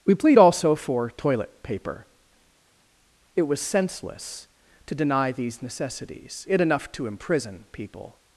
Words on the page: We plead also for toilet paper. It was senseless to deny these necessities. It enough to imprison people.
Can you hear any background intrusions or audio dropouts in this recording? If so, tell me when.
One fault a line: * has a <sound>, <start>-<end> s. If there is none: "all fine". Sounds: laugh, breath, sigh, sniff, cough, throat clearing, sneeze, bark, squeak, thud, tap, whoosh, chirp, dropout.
all fine